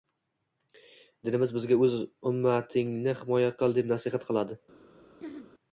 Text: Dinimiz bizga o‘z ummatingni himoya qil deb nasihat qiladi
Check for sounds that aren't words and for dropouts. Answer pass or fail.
fail